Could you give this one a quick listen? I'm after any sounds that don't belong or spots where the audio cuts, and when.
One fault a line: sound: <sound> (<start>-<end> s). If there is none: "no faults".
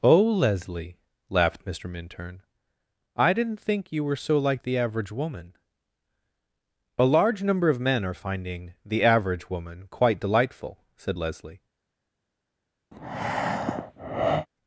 sound: breath (12.9-14.5 s)